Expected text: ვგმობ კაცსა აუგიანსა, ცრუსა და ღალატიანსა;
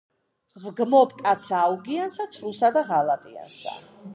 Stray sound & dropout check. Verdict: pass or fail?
pass